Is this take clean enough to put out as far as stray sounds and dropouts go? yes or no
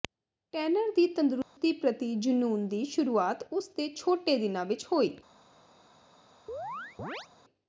no